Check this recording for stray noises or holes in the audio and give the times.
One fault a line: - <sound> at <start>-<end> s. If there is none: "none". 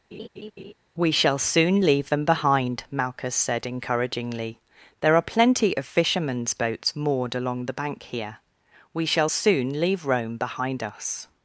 - laugh at 0.1-0.7 s